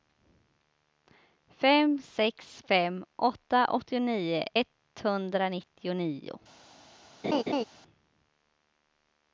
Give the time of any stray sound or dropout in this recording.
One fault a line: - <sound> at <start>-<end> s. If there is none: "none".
- laugh at 7.2-7.6 s